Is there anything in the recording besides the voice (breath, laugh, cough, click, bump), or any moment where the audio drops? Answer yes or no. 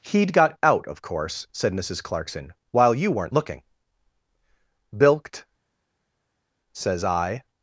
no